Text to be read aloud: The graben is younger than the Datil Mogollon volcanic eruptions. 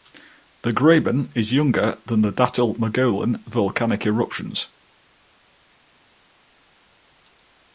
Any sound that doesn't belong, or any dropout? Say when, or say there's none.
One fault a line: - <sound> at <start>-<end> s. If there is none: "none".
none